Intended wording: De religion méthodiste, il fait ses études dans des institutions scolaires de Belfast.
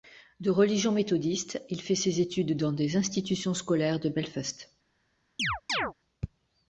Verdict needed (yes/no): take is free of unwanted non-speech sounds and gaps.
no